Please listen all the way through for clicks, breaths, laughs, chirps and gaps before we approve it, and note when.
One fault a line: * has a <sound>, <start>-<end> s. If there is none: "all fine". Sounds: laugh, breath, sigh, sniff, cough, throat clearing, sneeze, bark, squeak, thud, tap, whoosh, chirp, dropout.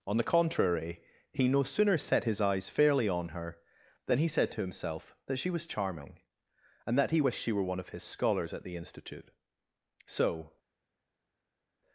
all fine